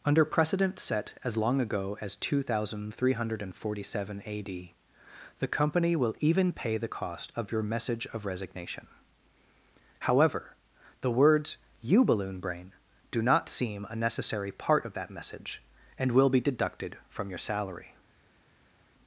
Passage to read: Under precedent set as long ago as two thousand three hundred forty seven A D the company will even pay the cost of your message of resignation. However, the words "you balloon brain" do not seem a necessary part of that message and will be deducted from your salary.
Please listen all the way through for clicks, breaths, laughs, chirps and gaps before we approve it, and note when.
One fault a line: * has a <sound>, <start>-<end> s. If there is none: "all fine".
all fine